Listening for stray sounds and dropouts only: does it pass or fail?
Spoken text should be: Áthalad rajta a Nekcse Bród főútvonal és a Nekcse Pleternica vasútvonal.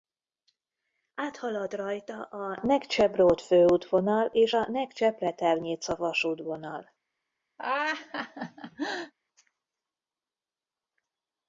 fail